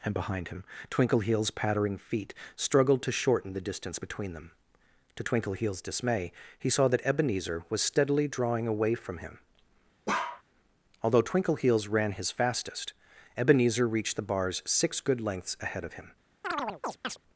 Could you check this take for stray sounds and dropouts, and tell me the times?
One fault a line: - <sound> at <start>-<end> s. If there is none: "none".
- bark at 10.1-10.4 s
- chirp at 16.4-17.2 s